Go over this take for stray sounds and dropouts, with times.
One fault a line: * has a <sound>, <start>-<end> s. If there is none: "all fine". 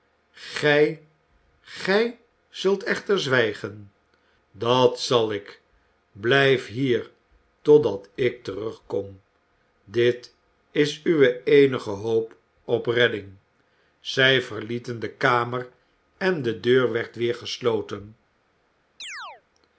* has a chirp, 19.0-19.4 s